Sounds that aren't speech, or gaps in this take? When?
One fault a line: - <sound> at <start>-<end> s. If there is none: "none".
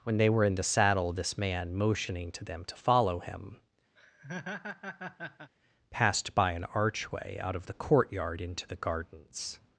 - laugh at 4.0-5.5 s